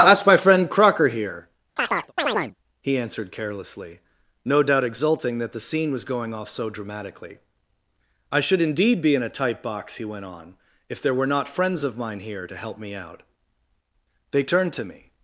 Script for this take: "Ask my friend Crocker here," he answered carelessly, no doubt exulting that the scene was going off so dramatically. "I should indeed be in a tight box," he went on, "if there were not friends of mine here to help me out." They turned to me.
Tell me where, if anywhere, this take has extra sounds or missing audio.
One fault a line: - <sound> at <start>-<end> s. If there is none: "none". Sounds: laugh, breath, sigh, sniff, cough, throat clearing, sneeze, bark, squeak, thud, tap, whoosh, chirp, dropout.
- chirp at 1.8-2.5 s